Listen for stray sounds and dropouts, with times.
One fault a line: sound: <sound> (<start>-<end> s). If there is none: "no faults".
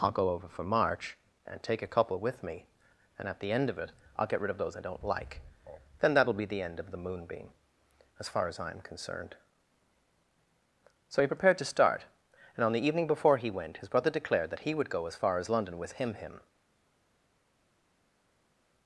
no faults